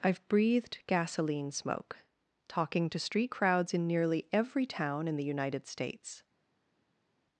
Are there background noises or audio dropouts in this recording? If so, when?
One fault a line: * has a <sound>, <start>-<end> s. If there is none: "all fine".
all fine